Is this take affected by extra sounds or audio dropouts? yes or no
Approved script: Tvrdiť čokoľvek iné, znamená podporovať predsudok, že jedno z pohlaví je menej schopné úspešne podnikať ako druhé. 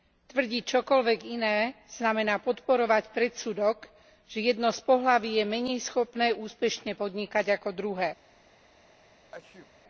yes